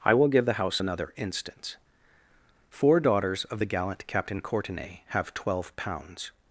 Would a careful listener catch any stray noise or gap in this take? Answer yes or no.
no